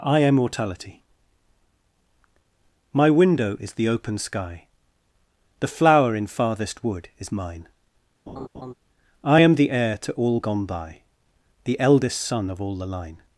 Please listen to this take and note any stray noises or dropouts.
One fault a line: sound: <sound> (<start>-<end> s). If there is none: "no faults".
sound: laugh (8.3-8.7 s)